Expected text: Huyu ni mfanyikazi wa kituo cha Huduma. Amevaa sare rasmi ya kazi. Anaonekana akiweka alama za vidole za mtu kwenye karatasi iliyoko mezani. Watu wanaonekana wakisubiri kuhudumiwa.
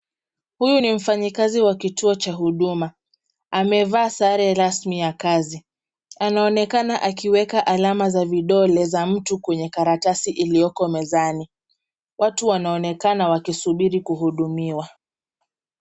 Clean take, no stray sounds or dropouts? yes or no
yes